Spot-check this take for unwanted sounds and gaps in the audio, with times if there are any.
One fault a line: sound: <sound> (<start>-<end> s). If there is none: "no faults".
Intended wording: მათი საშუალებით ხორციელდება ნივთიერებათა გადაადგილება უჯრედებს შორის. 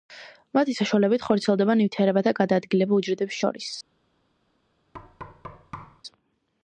sound: thud (4.9-6.0 s)